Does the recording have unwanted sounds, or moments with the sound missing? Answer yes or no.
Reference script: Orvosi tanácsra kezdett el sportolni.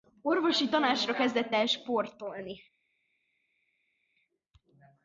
no